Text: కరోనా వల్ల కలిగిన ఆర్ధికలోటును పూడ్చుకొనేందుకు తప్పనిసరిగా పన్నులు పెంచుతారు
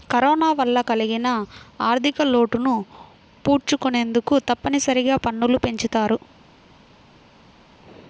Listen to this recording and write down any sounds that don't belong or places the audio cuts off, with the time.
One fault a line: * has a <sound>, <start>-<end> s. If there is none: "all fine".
all fine